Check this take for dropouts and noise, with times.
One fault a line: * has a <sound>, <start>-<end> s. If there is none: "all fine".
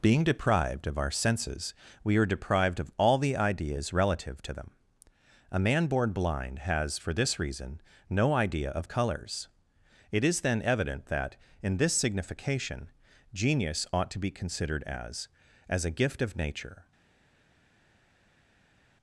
all fine